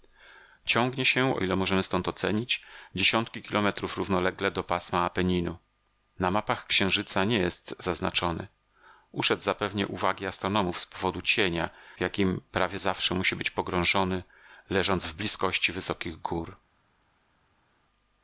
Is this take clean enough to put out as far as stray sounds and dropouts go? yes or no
yes